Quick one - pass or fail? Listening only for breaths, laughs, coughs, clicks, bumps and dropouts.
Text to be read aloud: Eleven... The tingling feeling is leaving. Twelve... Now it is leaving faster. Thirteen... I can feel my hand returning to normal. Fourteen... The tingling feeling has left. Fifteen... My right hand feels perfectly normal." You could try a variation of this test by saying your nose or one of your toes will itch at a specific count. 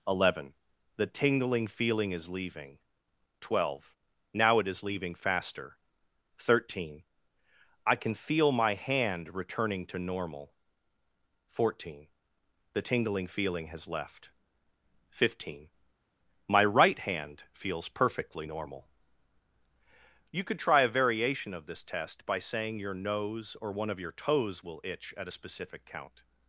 pass